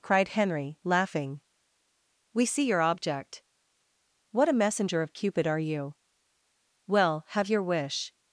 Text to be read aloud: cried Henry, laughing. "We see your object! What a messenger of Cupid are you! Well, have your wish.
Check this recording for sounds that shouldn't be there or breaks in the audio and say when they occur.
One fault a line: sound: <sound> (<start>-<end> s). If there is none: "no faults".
no faults